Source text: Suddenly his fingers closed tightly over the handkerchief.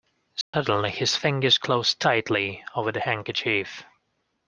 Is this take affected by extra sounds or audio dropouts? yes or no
yes